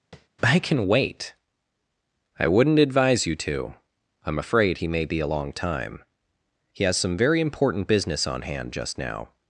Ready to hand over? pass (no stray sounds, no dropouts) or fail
fail